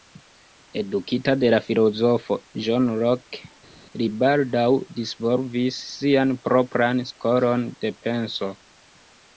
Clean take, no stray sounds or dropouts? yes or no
yes